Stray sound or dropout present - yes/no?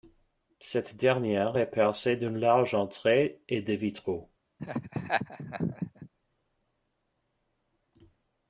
yes